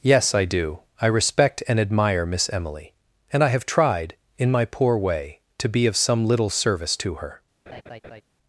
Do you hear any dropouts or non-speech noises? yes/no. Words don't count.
yes